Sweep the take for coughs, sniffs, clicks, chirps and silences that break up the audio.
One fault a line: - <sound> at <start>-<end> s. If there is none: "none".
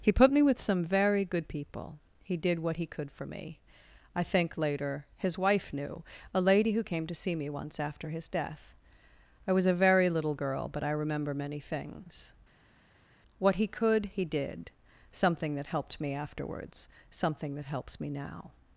none